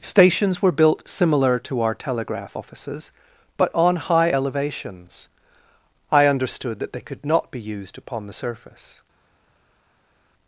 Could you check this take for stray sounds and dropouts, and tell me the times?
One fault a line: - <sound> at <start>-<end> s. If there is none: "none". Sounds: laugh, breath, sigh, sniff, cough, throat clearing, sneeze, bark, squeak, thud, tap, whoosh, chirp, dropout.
none